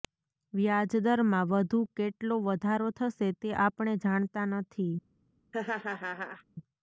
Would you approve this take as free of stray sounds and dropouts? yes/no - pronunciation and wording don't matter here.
no